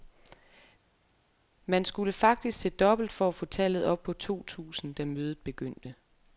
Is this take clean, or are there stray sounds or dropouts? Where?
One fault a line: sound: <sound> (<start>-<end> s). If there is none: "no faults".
no faults